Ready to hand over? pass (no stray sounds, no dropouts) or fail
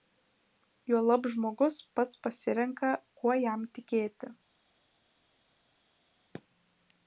pass